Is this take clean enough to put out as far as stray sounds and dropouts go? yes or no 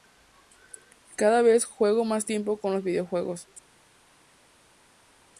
yes